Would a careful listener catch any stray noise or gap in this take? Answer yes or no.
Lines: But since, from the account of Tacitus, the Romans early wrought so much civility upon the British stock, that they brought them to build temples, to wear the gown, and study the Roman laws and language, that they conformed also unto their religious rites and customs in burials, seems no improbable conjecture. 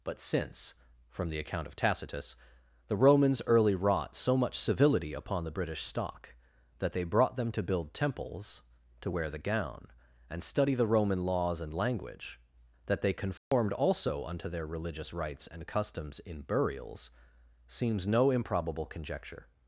yes